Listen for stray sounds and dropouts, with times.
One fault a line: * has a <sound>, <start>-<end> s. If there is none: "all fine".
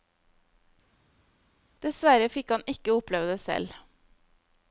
all fine